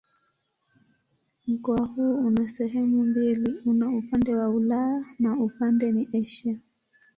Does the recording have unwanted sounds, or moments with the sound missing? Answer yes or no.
no